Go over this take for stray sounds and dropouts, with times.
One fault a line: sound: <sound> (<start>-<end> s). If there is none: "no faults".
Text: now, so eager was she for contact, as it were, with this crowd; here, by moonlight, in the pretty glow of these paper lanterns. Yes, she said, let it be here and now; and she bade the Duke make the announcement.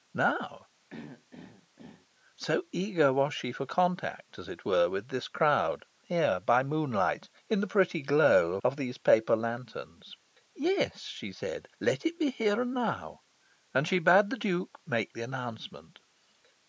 sound: throat clearing (0.9-2.1 s)